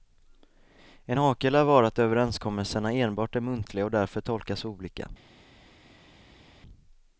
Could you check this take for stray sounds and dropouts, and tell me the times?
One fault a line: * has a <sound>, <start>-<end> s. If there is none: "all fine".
all fine